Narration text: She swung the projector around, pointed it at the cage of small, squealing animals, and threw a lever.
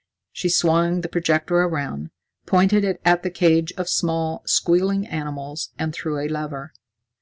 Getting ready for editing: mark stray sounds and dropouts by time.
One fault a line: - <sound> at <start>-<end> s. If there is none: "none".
none